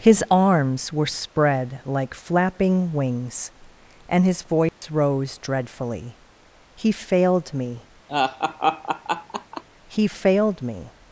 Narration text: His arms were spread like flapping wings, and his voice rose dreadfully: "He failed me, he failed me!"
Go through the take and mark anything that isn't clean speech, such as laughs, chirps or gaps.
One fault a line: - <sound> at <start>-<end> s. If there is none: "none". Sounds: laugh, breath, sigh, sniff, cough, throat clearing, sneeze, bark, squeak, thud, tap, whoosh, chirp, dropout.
- dropout at 4.7-4.8 s
- laugh at 8.1-9.6 s